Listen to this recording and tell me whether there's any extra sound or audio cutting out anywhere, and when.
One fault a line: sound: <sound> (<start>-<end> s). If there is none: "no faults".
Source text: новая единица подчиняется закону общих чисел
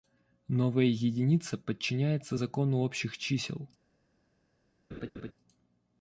sound: laugh (4.9-5.3 s)